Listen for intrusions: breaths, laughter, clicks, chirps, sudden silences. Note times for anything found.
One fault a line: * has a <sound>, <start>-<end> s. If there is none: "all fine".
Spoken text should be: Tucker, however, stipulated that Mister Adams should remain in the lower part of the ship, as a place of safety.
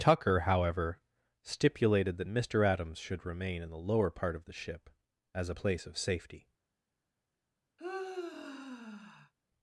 * has a sigh, 7.8-9.3 s